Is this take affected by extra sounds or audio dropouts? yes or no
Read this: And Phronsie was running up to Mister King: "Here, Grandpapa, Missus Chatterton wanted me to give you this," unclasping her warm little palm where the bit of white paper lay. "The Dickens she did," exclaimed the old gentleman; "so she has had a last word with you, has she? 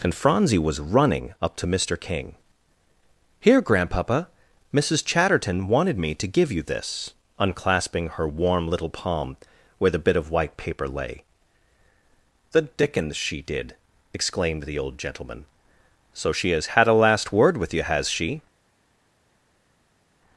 no